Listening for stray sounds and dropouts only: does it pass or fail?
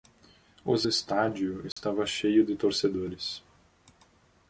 fail